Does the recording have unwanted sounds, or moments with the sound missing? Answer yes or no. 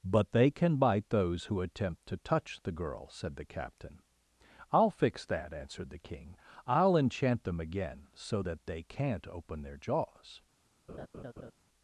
yes